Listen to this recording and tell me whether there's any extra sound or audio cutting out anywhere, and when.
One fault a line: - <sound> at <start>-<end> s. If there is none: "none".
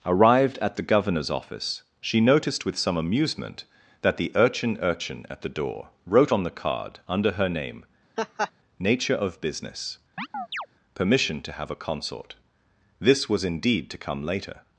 - laugh at 8.2-8.5 s
- chirp at 10.2-10.7 s